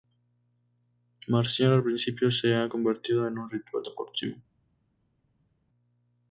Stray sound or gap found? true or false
false